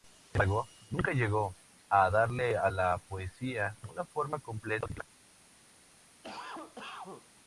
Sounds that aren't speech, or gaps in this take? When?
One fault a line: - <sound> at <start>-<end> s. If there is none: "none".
- cough at 6.2-7.3 s